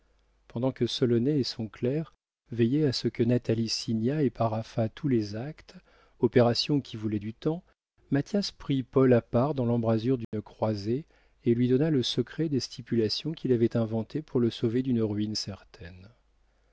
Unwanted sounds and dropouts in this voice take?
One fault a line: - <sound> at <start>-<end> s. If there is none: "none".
- dropout at 10.2-10.3 s